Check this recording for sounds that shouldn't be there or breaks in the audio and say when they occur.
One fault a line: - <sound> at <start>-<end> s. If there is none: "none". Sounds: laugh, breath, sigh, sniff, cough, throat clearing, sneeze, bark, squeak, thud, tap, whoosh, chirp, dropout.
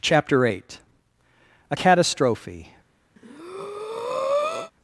- breath at 3.2-4.7 s